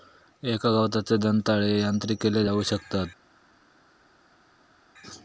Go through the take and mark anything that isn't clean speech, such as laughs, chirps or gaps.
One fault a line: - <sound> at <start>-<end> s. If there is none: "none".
none